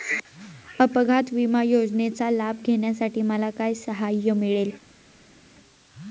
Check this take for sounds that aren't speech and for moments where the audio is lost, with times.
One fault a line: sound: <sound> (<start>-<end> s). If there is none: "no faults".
no faults